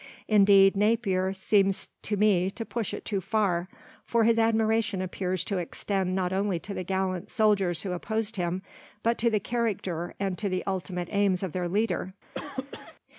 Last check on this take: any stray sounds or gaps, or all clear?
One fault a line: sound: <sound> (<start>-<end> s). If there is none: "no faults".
sound: cough (12.3-13.0 s)